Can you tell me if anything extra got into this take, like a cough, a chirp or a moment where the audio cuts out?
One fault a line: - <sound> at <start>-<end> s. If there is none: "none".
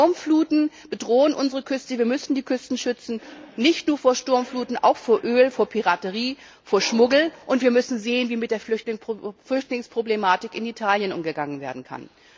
none